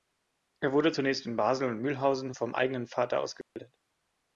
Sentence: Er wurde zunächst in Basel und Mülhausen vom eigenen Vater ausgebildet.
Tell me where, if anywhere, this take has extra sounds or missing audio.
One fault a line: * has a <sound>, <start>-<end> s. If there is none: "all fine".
* has a dropout, 3.4-3.6 s